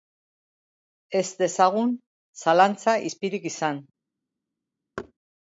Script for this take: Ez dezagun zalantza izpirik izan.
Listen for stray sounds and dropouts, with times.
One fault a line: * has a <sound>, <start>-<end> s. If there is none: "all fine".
* has a thud, 5.0-5.1 s